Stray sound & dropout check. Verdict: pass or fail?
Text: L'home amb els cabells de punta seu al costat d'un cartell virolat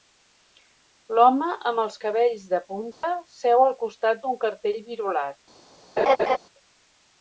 fail